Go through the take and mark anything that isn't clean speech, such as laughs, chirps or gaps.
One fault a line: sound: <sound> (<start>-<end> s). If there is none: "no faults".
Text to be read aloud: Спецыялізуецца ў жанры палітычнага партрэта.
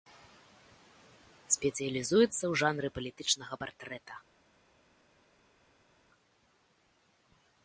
no faults